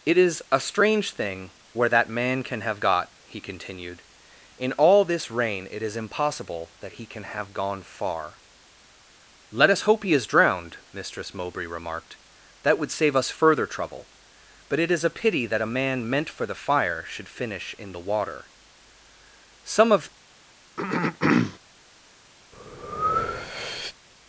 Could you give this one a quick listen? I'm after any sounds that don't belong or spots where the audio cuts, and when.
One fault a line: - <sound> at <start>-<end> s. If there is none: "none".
- throat clearing at 20.8-21.6 s
- breath at 22.5-24.0 s